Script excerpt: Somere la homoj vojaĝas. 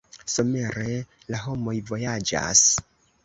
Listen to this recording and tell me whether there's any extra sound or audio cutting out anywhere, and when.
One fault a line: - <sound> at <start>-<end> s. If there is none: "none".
none